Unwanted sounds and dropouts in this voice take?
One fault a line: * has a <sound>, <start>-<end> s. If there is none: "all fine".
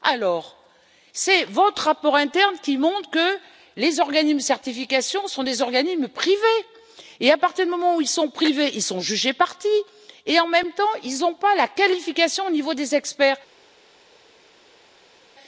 all fine